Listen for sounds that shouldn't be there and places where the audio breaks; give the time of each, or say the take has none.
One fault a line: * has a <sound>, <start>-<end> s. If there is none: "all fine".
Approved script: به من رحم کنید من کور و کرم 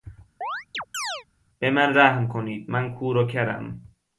* has a chirp, 0.4-1.2 s